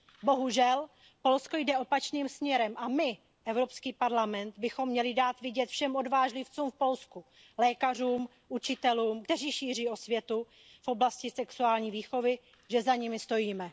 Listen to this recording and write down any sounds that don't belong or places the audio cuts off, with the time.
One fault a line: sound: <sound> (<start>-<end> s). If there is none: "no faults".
no faults